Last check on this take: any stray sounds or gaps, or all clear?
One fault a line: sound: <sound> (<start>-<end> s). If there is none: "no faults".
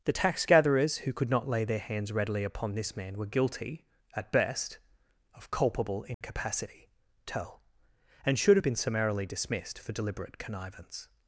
sound: dropout (6.1-6.2 s)